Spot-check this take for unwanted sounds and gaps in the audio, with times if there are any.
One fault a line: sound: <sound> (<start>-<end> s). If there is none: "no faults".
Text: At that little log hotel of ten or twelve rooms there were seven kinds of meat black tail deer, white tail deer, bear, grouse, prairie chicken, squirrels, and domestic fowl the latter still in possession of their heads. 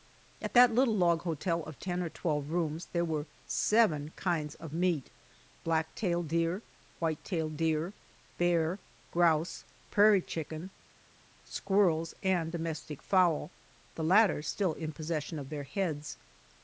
no faults